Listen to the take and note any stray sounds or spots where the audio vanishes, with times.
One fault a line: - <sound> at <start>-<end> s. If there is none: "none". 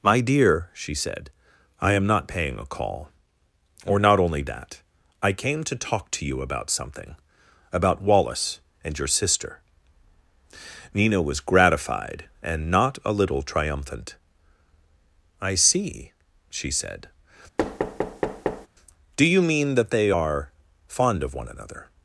- thud at 17.6-18.7 s